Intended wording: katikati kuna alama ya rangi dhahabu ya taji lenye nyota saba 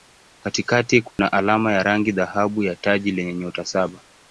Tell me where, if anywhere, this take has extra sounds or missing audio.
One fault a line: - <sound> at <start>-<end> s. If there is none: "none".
- dropout at 1.1-1.2 s